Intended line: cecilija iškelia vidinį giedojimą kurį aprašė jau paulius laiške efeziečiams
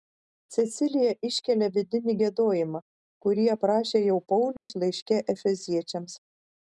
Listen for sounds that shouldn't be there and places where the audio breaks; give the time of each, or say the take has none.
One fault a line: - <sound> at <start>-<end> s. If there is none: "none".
- dropout at 4.6-4.7 s